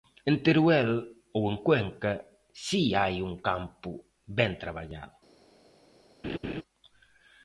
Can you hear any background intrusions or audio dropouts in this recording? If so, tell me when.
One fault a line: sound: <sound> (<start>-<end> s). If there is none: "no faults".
sound: laugh (6.2-6.6 s)